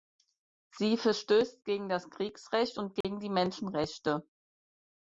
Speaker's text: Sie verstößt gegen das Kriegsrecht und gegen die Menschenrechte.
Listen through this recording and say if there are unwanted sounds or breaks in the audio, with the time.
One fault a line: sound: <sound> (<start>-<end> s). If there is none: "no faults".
sound: dropout (3.0-3.0 s)